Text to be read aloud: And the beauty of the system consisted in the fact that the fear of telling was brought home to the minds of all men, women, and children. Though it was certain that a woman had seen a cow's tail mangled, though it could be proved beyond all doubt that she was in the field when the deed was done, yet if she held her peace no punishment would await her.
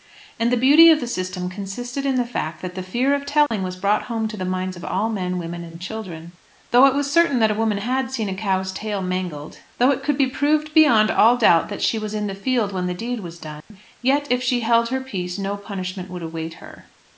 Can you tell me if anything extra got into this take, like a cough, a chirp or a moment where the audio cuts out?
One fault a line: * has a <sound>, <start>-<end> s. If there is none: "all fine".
* has a dropout, 3.5-3.5 s
* has a dropout, 13.6-13.7 s